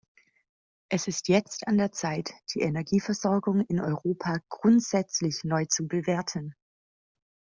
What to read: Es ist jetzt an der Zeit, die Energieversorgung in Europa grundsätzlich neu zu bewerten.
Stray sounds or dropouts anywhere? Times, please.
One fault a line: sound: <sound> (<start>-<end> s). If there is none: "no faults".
no faults